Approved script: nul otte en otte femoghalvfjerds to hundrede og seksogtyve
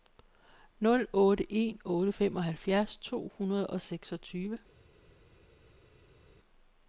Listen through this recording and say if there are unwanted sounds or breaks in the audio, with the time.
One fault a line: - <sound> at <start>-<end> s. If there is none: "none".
none